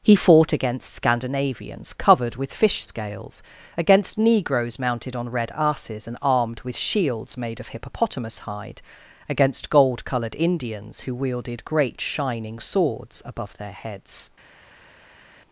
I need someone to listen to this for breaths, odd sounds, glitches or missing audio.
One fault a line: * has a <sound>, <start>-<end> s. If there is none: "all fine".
all fine